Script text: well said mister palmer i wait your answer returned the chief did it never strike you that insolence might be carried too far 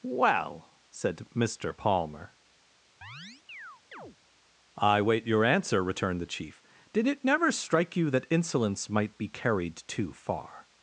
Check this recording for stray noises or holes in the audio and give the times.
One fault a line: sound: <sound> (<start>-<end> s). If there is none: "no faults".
sound: chirp (3.0-4.2 s)